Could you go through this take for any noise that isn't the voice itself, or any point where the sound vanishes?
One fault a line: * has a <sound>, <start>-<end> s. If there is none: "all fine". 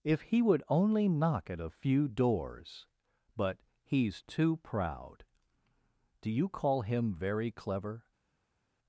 all fine